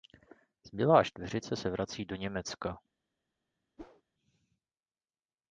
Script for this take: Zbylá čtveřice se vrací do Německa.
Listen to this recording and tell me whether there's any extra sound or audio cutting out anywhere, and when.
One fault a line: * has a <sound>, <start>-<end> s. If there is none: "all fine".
* has a whoosh, 3.8-4.0 s